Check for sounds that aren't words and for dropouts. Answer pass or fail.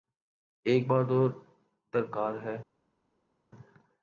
pass